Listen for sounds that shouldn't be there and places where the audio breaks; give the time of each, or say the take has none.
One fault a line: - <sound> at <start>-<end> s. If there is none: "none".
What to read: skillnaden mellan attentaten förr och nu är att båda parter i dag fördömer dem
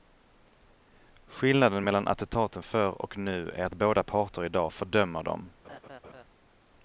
- laugh at 5.6-6.2 s